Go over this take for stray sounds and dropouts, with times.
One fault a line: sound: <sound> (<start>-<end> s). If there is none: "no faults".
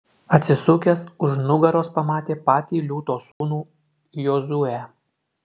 sound: dropout (3.3-3.4 s)